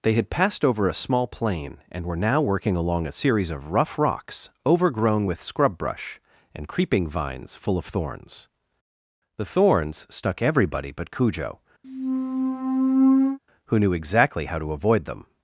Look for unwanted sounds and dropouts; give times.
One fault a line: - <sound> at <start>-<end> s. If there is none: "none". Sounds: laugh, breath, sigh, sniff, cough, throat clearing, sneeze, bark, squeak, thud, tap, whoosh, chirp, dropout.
- squeak at 11.8-13.4 s